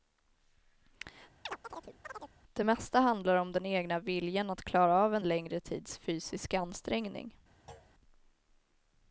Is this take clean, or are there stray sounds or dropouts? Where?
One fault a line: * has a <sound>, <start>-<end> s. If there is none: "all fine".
* has a chirp, 1.5-2.3 s
* has a thud, 7.7-7.9 s